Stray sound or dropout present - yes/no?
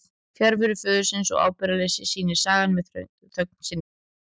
no